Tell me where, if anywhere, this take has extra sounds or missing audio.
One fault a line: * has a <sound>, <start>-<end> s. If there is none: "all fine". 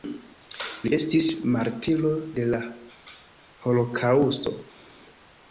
all fine